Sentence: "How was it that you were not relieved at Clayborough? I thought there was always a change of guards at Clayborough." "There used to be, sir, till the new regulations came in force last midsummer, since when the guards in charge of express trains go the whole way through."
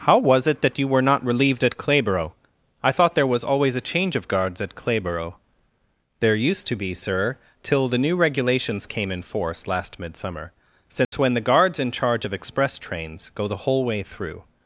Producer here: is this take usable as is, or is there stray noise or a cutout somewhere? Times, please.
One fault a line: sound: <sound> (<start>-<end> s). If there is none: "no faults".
sound: dropout (11.0-11.1 s)